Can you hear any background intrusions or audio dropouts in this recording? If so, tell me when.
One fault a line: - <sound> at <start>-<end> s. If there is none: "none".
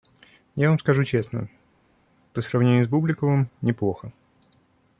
none